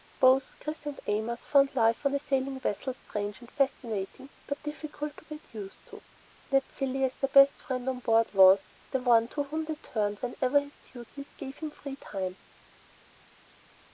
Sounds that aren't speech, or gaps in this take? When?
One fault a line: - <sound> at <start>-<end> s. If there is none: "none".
none